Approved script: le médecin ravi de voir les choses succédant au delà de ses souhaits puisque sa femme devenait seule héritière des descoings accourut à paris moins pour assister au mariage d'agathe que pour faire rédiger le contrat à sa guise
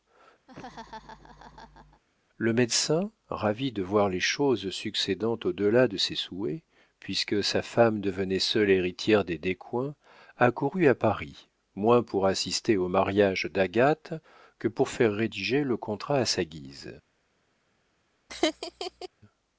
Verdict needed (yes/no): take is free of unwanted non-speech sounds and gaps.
no